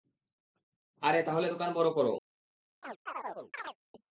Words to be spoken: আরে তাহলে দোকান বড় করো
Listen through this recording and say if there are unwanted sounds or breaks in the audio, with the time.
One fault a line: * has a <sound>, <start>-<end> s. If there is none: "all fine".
* has a chirp, 2.8-3.8 s